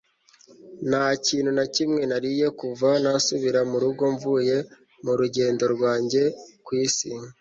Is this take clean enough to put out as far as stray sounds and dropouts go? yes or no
yes